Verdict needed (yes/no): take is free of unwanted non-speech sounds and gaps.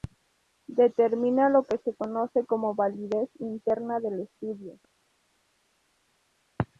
yes